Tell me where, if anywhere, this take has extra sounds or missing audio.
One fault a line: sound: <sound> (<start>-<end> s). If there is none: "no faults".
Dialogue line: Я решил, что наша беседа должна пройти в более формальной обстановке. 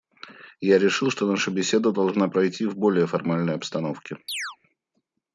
sound: chirp (4.3-4.6 s)